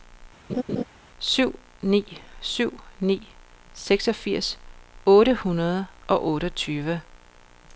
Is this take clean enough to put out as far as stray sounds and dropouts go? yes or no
no